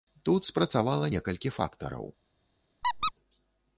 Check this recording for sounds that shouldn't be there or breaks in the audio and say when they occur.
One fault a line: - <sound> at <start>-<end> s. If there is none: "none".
- squeak at 2.8-3.1 s